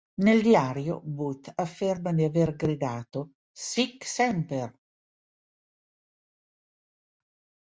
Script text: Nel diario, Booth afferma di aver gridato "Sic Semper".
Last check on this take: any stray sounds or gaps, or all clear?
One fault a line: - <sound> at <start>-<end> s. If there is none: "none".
none